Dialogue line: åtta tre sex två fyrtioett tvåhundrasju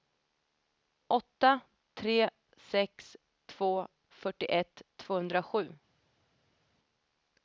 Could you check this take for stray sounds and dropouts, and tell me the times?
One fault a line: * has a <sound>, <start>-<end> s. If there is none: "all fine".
all fine